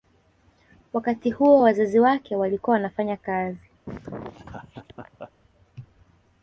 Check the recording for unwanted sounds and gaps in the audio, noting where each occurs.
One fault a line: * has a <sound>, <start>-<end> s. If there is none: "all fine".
* has a laugh, 3.9-5.3 s